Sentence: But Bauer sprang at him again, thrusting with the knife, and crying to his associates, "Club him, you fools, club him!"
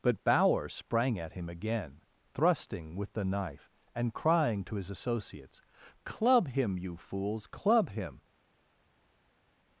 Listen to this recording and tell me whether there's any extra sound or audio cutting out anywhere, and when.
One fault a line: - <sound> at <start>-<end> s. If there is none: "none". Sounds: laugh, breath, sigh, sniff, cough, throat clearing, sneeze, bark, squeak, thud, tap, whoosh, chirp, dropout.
none